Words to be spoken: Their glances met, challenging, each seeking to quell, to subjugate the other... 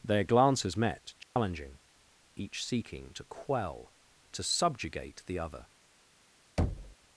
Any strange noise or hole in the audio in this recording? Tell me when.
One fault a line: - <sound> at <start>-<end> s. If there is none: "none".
- dropout at 1.2-1.4 s
- thud at 6.6-7.0 s